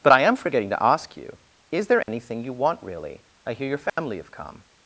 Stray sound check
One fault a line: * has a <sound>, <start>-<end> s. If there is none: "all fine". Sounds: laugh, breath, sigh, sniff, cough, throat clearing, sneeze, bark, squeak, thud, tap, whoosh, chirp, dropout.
* has a dropout, 2.0-2.1 s
* has a dropout, 3.9-4.0 s